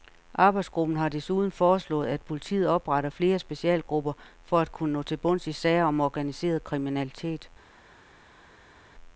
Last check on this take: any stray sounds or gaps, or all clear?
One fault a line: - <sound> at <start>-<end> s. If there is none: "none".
none